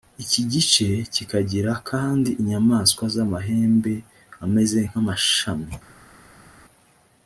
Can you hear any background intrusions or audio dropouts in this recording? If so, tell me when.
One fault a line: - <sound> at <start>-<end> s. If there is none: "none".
none